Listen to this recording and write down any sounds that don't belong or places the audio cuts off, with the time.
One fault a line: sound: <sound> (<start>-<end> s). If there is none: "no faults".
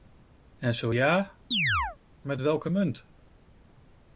sound: chirp (1.5-2.0 s)